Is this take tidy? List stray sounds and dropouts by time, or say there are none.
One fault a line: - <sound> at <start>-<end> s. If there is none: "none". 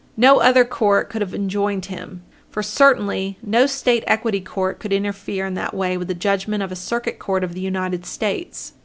none